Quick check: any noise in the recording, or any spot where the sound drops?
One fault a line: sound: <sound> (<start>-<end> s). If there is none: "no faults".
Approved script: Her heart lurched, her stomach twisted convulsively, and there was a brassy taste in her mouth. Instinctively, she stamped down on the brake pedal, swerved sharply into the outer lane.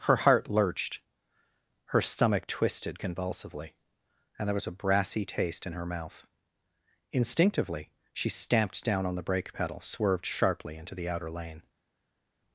no faults